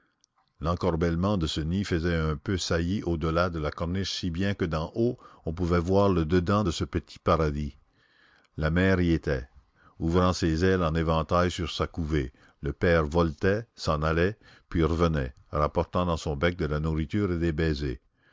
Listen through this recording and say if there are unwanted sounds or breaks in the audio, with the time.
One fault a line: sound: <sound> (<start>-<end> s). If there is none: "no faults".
no faults